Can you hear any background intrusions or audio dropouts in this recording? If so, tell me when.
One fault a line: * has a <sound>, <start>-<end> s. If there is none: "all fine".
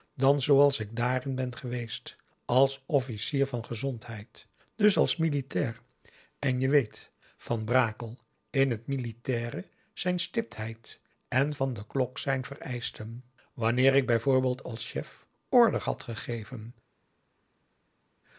all fine